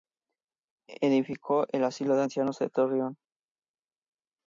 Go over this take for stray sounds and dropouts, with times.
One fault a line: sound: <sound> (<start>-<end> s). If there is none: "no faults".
no faults